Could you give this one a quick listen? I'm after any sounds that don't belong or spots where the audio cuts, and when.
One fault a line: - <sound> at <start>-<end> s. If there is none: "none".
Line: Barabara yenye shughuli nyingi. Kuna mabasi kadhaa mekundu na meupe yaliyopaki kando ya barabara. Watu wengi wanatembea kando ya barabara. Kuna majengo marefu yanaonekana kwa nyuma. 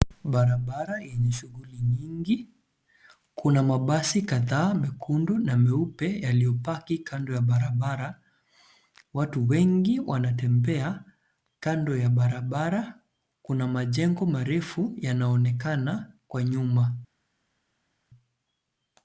none